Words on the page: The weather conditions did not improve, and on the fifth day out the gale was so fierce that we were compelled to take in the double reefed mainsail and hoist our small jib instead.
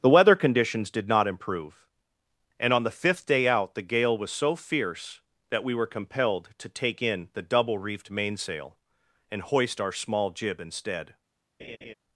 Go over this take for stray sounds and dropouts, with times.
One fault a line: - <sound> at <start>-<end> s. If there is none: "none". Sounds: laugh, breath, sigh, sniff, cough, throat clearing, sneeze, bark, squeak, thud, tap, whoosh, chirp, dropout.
- laugh at 11.6-11.9 s